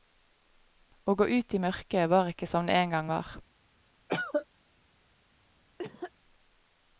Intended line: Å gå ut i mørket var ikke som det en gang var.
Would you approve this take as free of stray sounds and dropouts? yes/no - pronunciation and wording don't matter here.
no